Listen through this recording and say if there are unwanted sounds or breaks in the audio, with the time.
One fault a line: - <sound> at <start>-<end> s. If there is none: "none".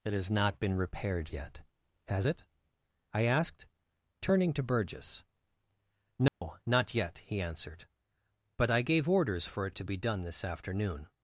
- dropout at 6.3-6.4 s